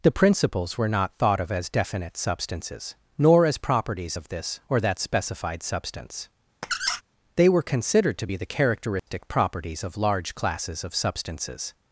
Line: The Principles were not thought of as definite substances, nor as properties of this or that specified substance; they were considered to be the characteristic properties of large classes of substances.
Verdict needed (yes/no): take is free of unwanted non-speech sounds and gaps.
no